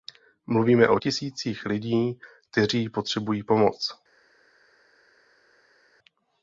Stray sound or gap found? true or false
false